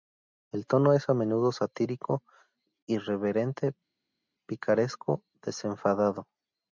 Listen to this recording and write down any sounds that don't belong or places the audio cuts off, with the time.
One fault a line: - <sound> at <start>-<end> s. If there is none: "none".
none